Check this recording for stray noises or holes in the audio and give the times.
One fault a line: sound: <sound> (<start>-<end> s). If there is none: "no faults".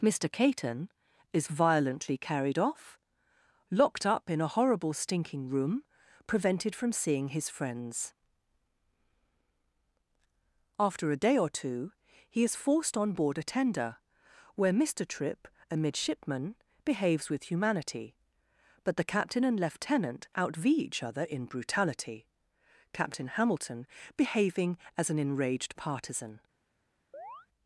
sound: chirp (27.1-27.5 s)